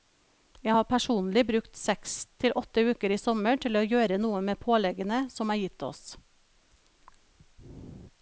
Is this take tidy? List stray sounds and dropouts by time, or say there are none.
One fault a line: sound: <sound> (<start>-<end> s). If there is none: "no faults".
no faults